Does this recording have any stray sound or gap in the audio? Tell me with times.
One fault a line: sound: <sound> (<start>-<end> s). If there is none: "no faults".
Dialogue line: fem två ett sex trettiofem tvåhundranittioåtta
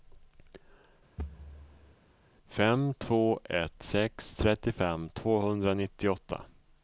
sound: thud (1.2-2.0 s)